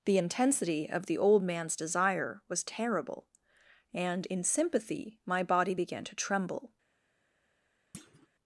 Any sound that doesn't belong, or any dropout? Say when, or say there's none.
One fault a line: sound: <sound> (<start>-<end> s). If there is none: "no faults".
sound: thud (7.9-8.3 s)